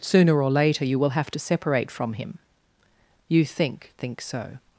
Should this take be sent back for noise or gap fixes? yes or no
no